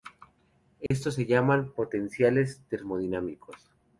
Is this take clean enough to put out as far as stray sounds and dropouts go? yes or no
no